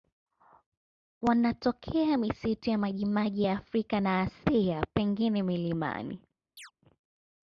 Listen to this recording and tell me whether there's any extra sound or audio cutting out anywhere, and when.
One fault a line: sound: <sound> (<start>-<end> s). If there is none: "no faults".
sound: chirp (6.6-6.7 s)